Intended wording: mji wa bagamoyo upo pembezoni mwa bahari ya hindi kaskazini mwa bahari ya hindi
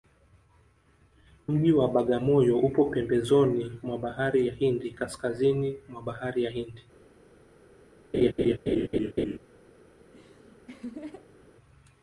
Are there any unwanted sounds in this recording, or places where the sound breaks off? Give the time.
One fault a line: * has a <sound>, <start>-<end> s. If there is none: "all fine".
* has a laugh, 8.1-9.4 s
* has a laugh, 10.0-11.5 s